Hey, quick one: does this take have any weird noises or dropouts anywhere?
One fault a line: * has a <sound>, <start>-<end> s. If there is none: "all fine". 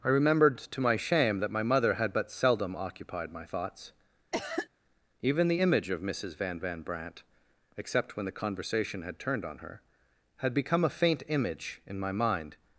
* has a cough, 4.3-4.7 s